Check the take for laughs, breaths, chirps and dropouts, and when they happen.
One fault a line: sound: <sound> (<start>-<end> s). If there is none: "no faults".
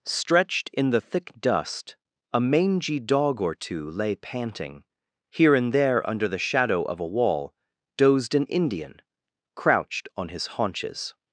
no faults